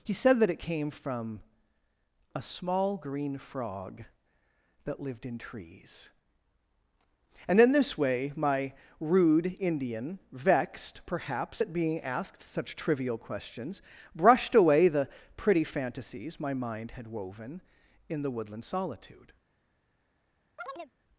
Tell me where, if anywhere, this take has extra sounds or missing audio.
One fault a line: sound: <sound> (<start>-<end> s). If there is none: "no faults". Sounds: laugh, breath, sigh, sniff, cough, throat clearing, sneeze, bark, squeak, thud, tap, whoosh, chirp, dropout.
sound: chirp (20.6-20.9 s)